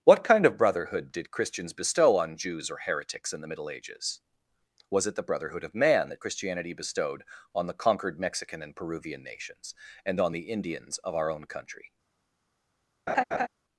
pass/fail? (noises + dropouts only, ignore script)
fail